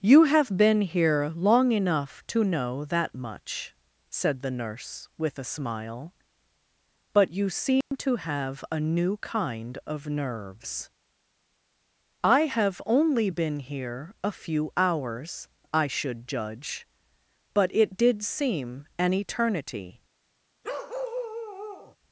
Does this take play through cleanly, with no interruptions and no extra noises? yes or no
no